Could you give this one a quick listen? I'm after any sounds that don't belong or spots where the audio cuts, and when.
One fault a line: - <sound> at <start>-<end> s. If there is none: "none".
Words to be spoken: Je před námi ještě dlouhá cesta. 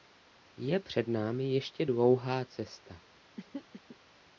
- throat clearing at 3.4-4.0 s